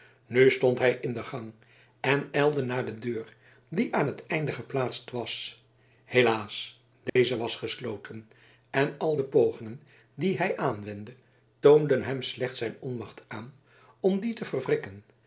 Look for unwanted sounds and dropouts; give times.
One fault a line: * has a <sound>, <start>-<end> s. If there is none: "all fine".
* has a dropout, 7.1-7.2 s